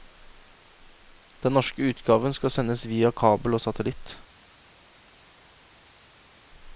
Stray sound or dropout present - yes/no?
no